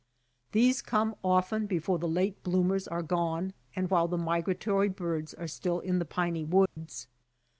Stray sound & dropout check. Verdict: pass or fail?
fail